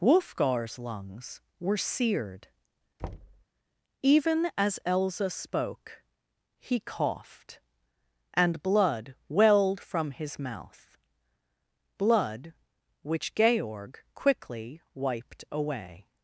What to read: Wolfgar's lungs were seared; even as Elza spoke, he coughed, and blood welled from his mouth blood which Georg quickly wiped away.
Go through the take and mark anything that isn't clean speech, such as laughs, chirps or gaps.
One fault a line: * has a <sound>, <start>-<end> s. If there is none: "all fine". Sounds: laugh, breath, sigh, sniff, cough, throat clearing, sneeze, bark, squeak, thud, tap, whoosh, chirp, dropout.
* has a thud, 3.0-3.4 s